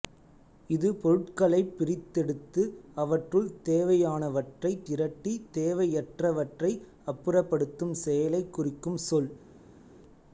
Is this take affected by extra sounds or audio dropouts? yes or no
no